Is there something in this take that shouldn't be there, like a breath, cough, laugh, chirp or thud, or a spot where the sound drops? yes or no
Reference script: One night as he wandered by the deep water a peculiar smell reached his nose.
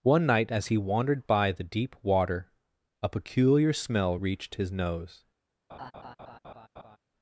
yes